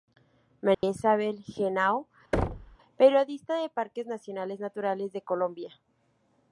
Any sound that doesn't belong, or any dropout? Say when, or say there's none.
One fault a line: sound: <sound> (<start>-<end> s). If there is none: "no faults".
sound: dropout (0.7-0.8 s)
sound: thud (2.3-2.8 s)